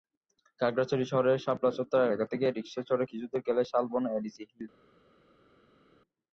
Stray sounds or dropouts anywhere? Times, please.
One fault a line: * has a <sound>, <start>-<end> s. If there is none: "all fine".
all fine